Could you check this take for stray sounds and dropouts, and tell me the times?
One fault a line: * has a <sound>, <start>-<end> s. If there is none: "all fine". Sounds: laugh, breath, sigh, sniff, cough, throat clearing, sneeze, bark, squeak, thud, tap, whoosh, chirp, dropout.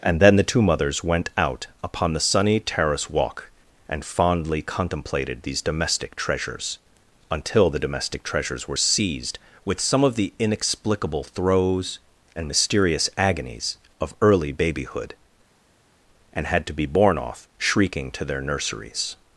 all fine